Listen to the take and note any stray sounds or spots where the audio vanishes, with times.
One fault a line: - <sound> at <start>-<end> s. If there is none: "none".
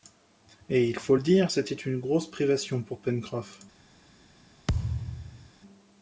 - thud at 4.7-5.5 s